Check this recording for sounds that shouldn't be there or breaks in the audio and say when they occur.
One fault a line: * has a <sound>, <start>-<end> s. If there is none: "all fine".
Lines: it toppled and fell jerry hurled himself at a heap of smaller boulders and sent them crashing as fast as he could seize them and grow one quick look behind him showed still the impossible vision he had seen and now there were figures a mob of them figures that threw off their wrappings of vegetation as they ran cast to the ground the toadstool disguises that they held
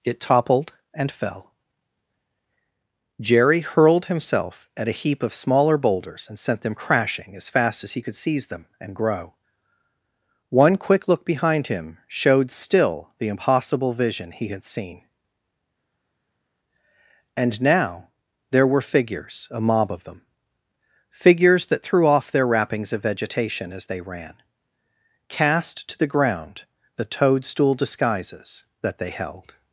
all fine